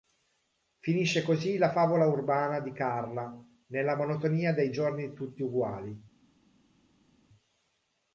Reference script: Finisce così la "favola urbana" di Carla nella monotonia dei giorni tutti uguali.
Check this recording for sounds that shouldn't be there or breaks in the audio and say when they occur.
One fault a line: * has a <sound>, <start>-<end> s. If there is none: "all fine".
all fine